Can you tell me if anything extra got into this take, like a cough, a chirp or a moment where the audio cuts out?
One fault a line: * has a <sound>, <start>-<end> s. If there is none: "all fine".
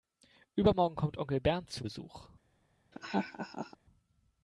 * has a laugh, 2.9-3.8 s